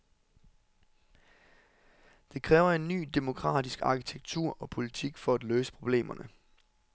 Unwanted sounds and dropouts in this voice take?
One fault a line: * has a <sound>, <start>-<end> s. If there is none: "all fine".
all fine